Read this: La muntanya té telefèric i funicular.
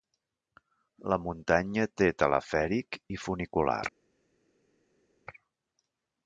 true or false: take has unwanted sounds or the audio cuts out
false